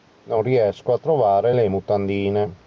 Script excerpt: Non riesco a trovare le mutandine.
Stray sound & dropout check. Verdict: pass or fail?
pass